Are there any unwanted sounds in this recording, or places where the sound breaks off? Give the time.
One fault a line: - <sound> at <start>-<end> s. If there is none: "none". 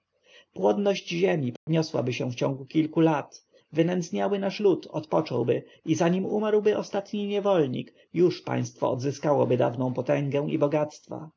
- dropout at 1.6-1.7 s